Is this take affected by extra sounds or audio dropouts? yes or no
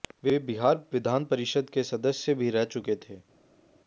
no